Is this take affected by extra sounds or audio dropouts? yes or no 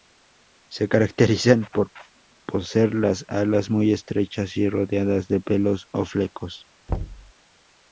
yes